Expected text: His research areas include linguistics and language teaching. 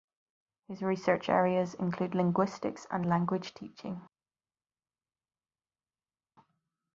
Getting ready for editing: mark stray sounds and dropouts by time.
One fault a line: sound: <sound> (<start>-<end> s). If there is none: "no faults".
no faults